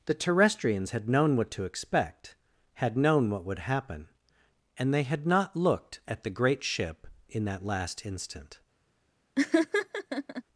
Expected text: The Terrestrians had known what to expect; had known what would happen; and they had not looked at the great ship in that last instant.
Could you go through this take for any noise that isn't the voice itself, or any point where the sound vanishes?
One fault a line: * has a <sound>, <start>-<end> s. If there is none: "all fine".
* has a laugh, 9.4-10.4 s